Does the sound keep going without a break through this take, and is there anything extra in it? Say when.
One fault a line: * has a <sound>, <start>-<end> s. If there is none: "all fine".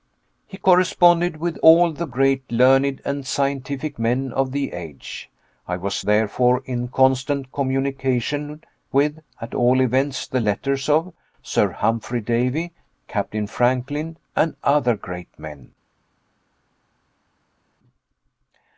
all fine